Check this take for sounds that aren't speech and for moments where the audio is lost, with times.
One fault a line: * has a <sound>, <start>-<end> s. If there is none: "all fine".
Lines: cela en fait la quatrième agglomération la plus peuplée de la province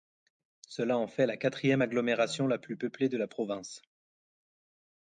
all fine